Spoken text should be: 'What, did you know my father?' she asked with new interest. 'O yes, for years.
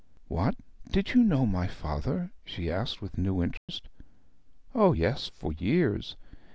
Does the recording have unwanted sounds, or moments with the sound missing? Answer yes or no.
yes